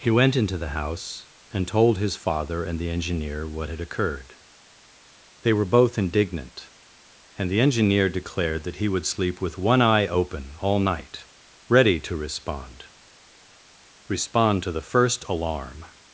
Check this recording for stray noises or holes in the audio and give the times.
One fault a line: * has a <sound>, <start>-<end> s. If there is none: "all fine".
all fine